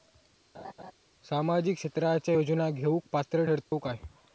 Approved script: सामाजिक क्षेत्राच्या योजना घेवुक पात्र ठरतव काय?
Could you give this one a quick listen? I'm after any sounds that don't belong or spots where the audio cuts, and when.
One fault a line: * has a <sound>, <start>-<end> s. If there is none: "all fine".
* has a laugh, 0.5-0.9 s
* has a dropout, 3.6-3.7 s